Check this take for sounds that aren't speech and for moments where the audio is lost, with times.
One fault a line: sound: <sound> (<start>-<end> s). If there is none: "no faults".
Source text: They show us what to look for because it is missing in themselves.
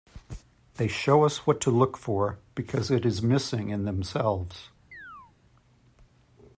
sound: chirp (4.9-5.3 s)